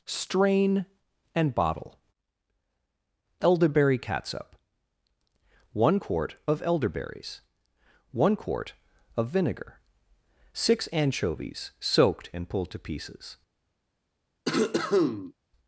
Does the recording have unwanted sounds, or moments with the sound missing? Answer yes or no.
yes